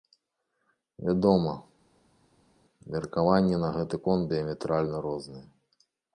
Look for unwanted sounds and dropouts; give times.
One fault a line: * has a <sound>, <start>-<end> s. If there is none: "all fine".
all fine